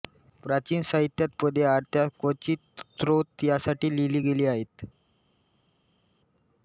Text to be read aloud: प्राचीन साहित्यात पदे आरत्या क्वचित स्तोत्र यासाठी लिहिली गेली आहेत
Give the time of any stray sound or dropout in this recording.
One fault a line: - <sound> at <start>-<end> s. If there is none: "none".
none